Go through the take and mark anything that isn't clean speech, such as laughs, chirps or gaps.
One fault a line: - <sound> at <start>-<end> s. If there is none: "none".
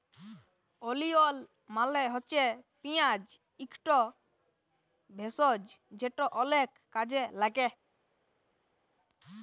none